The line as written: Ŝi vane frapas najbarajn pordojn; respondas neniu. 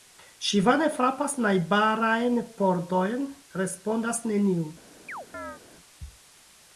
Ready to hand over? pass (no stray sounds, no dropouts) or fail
fail